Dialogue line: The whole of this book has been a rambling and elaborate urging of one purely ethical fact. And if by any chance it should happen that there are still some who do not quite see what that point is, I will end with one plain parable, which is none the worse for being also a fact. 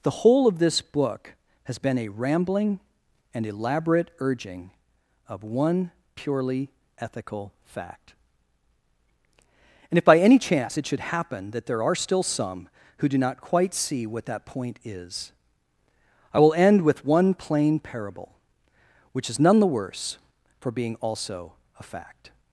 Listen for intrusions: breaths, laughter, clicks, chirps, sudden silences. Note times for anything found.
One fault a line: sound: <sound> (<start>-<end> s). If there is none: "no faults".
no faults